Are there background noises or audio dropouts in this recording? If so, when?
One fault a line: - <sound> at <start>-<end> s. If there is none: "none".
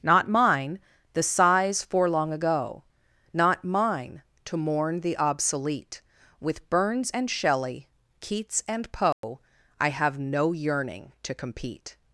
- dropout at 9.1-9.2 s